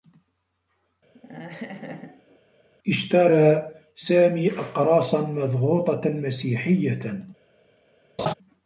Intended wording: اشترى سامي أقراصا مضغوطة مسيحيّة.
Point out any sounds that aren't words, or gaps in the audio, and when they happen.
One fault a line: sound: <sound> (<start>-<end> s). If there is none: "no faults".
sound: laugh (1.1-2.4 s)
sound: laugh (8.2-8.3 s)